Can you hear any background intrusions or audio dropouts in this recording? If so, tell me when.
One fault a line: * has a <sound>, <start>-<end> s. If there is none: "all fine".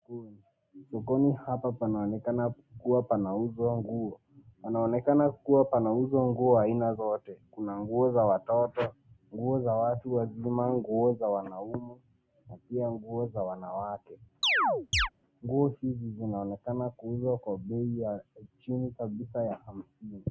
* has a chirp, 14.4-15.1 s